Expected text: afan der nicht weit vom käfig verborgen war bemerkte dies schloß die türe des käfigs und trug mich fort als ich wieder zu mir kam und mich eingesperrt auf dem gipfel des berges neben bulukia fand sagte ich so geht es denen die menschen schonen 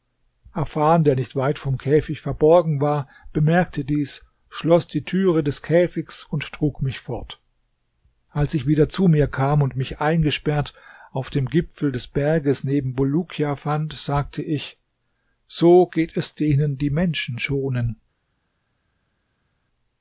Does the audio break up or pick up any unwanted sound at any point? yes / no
no